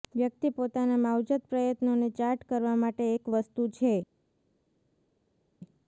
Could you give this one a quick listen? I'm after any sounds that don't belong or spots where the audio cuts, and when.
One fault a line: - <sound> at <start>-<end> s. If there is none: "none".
none